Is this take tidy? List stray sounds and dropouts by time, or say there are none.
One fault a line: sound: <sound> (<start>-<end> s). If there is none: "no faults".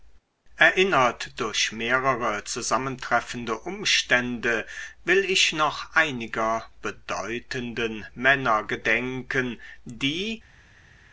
no faults